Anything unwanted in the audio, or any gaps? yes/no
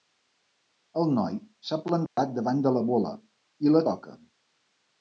yes